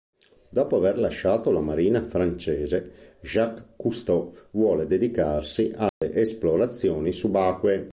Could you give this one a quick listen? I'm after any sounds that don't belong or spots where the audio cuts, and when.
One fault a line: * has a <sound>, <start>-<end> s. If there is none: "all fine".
* has a dropout, 5.9-6.0 s